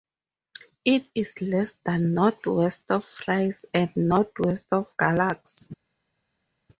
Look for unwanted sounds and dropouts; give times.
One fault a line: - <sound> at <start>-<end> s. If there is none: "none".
none